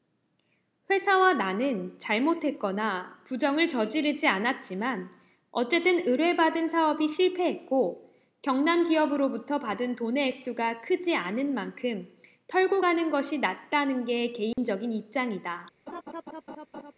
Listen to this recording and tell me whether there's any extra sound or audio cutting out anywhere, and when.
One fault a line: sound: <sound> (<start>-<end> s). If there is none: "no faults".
sound: dropout (14.5-14.6 s)
sound: laugh (15.9-16.9 s)